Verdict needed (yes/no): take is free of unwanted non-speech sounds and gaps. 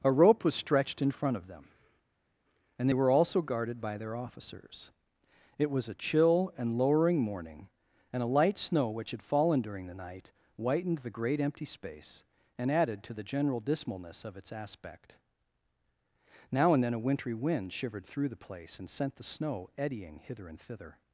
yes